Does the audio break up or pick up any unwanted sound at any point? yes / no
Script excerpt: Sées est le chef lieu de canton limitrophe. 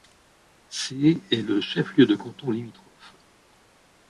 no